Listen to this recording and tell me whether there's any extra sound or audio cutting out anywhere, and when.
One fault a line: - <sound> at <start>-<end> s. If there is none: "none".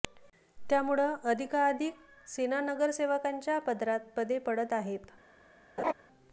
- laugh at 5.8-5.9 s